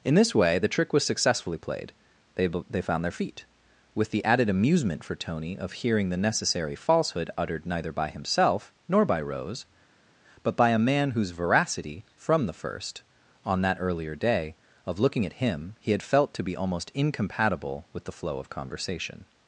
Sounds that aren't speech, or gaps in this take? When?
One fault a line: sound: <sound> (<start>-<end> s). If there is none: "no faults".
no faults